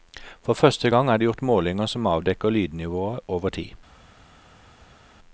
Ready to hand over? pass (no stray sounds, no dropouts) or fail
pass